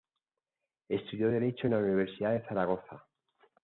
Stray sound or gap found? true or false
false